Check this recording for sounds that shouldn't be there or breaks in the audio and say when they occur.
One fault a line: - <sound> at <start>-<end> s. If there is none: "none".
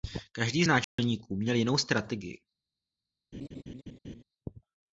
- dropout at 0.8-1.0 s
- laugh at 3.3-4.2 s